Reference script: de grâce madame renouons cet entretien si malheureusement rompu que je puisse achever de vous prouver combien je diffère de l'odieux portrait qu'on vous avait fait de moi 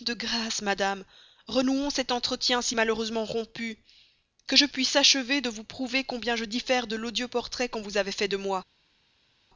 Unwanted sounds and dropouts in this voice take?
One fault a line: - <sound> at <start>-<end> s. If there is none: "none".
none